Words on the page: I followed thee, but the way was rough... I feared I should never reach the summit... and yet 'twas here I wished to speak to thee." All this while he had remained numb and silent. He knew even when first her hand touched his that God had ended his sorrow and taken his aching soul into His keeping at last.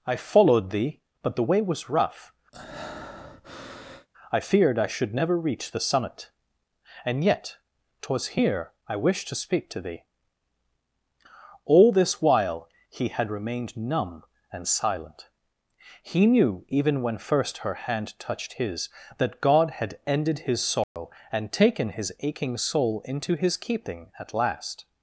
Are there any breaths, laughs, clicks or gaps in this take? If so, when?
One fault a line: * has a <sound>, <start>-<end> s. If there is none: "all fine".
* has a breath, 2.5-4.1 s
* has a dropout, 20.8-21.0 s